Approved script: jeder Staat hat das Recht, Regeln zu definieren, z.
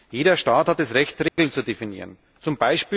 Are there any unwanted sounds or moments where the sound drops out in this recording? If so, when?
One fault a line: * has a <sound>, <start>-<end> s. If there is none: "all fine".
* has a dropout, 1.3-1.4 s